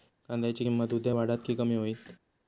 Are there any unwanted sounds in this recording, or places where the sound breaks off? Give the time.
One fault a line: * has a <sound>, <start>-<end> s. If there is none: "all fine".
all fine